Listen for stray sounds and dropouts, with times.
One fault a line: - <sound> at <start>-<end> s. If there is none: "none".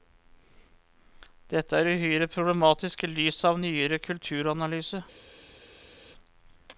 none